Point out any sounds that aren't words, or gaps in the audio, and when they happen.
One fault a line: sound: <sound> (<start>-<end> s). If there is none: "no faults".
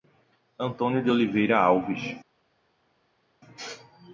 no faults